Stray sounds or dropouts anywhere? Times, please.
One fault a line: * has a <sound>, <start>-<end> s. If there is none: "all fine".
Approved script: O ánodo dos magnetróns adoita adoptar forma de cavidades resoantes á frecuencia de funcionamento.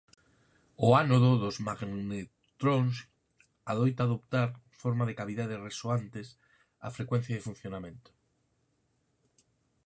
all fine